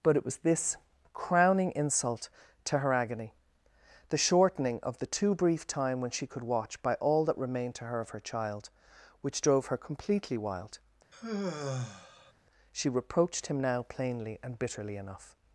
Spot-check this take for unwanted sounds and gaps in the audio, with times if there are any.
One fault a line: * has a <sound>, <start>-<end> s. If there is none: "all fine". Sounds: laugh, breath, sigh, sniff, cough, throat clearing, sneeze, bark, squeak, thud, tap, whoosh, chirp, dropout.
* has a sigh, 11.1-12.3 s